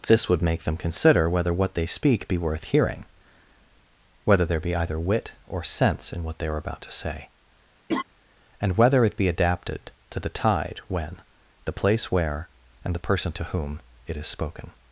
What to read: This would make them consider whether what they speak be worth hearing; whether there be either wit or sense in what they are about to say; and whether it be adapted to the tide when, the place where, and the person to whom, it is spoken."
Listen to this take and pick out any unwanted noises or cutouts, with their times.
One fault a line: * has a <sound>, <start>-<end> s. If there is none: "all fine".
* has a laugh, 7.9-8.0 s